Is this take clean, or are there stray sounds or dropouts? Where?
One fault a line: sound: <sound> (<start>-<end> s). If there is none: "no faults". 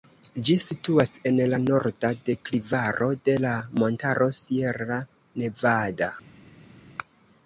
no faults